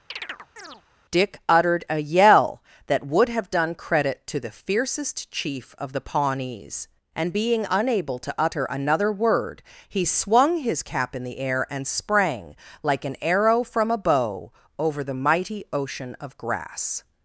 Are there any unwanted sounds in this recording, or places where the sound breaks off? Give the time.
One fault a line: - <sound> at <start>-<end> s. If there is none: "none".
- chirp at 0.1-0.8 s